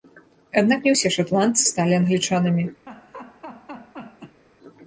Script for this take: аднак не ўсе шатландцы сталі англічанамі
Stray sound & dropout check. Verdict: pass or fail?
fail